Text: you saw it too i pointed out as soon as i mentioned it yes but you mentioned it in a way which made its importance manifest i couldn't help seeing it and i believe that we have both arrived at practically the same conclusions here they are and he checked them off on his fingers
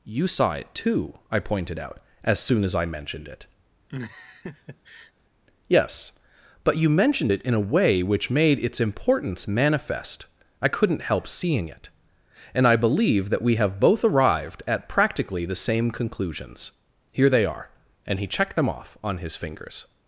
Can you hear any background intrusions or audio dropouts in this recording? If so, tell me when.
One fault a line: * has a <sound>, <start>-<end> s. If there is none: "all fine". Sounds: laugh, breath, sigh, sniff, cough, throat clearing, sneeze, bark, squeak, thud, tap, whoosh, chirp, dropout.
* has a laugh, 3.9-5.1 s